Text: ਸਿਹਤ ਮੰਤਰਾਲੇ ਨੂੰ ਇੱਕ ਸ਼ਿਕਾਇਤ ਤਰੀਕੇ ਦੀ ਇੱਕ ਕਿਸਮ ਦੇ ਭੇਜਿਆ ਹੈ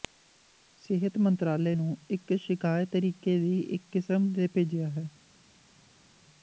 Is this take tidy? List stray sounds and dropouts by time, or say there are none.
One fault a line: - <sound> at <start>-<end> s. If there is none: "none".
none